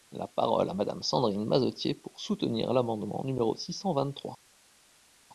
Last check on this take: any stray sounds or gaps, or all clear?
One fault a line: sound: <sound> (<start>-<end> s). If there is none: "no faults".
no faults